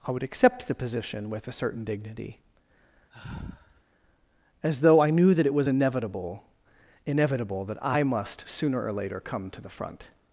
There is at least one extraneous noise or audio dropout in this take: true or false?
true